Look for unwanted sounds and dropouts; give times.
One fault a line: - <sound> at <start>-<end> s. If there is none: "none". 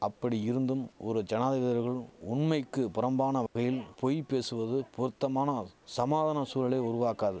- dropout at 3.5-3.6 s